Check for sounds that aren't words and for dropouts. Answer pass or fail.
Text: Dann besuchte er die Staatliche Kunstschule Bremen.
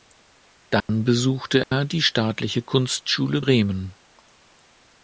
fail